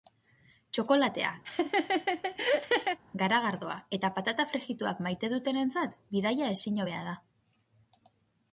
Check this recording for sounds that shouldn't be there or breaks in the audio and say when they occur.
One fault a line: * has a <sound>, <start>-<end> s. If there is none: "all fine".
* has a laugh, 1.4-3.0 s